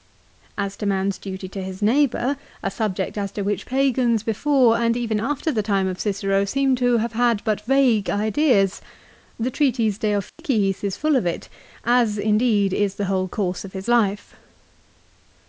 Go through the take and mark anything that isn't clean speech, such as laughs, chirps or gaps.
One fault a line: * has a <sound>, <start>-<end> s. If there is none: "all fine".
* has a dropout, 10.3-10.4 s